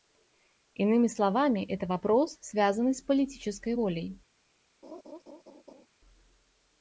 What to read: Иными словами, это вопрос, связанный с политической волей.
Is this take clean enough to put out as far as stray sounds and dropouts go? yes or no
no